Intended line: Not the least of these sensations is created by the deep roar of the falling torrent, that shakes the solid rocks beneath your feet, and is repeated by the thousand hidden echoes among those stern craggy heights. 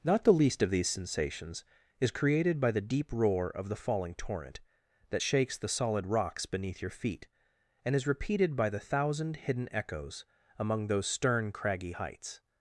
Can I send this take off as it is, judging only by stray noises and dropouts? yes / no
yes